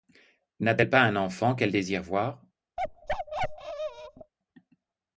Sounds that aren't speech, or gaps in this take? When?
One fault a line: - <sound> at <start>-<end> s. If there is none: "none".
- bark at 2.8-4.3 s